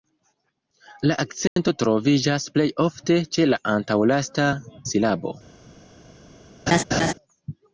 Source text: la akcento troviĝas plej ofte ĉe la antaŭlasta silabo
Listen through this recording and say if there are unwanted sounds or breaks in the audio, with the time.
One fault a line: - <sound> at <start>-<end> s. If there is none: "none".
- dropout at 1.5-1.6 s
- laugh at 6.7-7.1 s